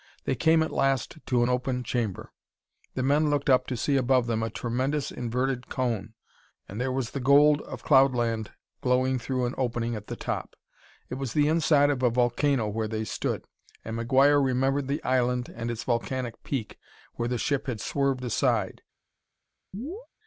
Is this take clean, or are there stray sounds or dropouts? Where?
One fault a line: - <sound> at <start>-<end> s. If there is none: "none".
- chirp at 19.7-20.1 s